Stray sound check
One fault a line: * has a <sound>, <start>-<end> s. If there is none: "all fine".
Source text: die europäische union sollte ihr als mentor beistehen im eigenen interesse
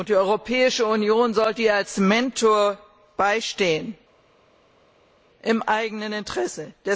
all fine